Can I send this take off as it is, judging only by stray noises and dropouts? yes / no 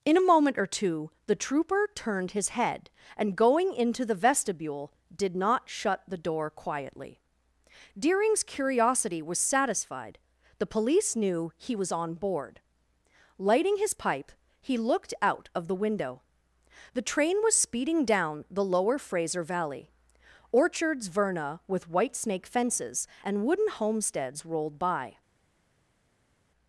yes